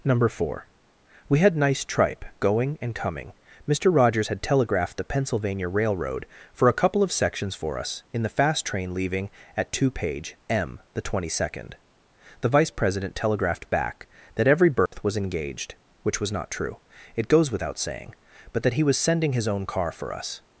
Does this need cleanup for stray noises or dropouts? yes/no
yes